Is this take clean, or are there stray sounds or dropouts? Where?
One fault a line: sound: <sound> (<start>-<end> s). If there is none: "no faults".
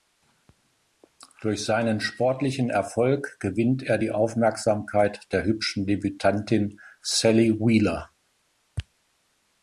no faults